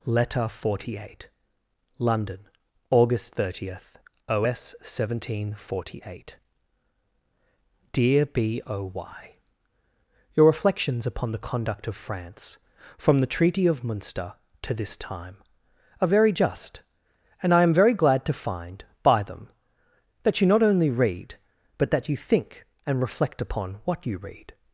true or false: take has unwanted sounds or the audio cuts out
false